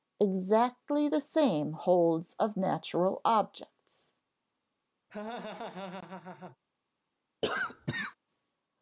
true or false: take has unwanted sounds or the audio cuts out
true